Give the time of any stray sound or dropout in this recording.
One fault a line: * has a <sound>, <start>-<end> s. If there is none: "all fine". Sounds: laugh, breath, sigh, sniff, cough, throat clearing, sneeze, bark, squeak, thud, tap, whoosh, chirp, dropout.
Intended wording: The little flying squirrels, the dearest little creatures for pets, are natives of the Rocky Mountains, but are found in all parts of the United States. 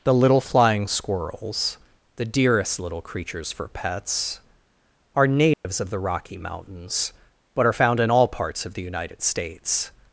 * has a dropout, 5.5-5.7 s